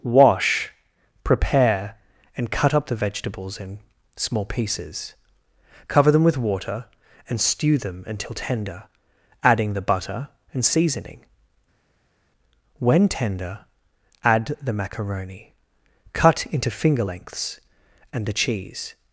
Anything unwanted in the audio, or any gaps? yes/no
no